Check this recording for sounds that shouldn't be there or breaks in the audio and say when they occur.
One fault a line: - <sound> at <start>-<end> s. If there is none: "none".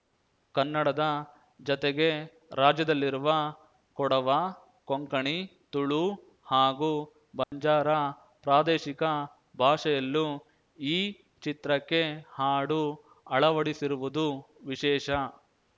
- dropout at 7.4-7.5 s